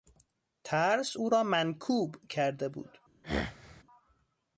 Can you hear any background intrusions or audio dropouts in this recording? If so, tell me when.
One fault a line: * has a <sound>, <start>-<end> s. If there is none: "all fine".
* has a throat clearing, 3.2-3.8 s